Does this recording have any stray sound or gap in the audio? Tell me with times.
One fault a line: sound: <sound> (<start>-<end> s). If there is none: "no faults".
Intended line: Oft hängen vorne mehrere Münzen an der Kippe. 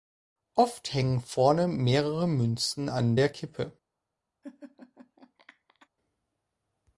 sound: laugh (4.4-5.9 s)